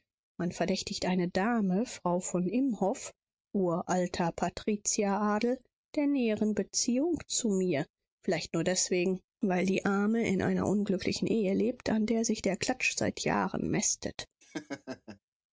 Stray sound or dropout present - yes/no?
yes